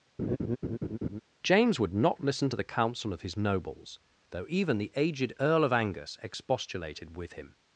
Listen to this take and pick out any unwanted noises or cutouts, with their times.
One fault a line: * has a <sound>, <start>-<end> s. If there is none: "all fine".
* has a laugh, 0.2-1.2 s